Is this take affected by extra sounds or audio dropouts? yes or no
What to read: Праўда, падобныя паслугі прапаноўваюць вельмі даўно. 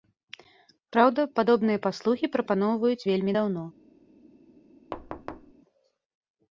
yes